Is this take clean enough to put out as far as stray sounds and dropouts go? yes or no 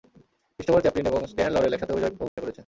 no